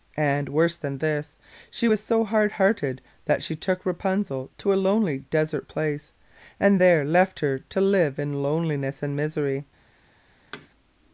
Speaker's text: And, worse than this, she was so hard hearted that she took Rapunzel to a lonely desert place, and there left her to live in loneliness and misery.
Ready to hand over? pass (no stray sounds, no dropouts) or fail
fail